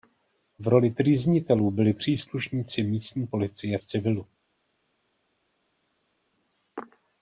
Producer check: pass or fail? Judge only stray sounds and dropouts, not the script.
pass